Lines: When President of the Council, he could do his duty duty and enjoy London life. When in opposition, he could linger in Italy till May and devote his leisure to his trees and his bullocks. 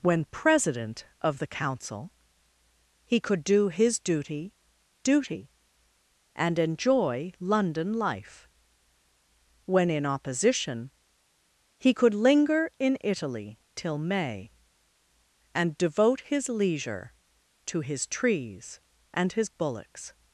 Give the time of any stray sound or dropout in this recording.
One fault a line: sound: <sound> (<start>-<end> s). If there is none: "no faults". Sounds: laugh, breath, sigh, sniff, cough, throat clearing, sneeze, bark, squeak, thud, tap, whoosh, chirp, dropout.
no faults